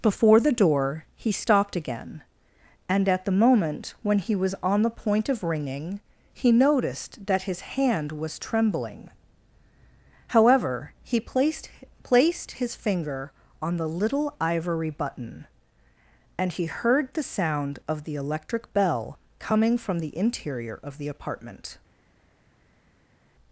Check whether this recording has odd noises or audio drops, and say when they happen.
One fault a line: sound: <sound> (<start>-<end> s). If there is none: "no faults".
no faults